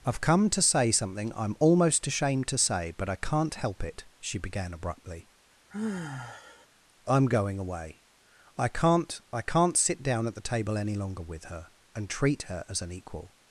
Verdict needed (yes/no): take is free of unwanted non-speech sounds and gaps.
no